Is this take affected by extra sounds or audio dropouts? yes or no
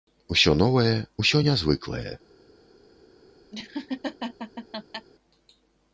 yes